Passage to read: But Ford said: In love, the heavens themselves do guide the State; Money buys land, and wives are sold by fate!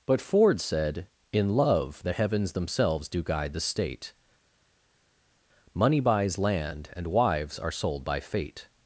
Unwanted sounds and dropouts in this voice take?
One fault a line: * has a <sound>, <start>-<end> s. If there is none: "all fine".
all fine